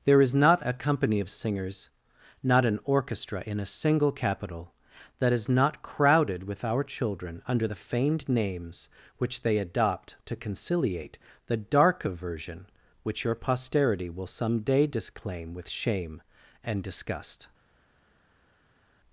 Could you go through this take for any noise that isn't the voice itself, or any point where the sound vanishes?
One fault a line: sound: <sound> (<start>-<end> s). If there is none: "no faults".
no faults